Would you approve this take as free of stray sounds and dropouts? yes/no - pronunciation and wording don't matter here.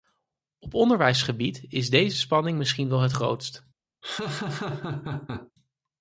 no